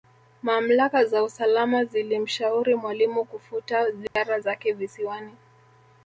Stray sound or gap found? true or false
true